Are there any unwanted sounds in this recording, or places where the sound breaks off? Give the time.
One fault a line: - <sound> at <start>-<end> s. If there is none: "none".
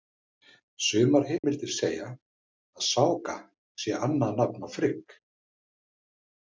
- dropout at 1.4-1.4 s